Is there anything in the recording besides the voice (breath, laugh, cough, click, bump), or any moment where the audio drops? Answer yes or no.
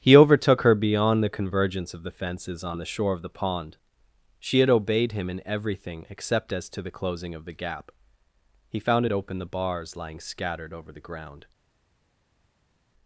no